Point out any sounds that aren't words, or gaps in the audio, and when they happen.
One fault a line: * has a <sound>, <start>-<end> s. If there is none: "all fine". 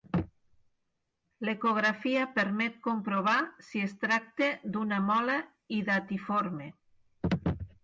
all fine